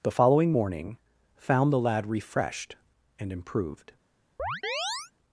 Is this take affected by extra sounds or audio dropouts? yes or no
yes